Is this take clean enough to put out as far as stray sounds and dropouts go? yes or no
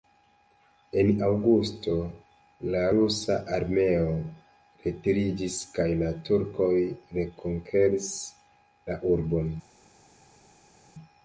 yes